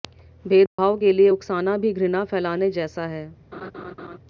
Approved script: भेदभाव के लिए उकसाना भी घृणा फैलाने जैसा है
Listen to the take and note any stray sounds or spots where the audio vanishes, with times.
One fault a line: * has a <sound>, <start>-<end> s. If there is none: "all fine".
* has a dropout, 0.7-0.8 s
* has a laugh, 3.5-4.2 s